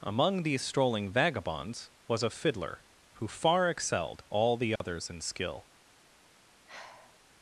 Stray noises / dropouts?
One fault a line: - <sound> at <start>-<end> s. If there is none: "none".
- dropout at 4.8-4.8 s
- sigh at 6.7-7.2 s